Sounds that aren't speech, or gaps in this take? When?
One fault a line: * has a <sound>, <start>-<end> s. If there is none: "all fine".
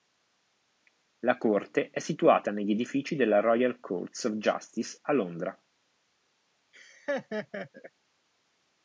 * has a laugh, 6.7-7.9 s